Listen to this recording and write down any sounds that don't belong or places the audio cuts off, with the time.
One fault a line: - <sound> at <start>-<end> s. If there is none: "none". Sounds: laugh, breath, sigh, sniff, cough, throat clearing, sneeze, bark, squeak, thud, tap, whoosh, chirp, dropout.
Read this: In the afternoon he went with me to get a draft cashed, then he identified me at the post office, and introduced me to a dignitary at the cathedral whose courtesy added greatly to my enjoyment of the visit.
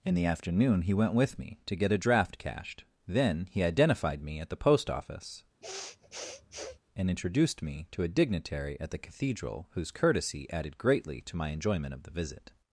- sniff at 5.6-6.8 s